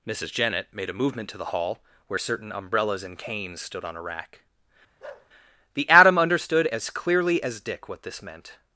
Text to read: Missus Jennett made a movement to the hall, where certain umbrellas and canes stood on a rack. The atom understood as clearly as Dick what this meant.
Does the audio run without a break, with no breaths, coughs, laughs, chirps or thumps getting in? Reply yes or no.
no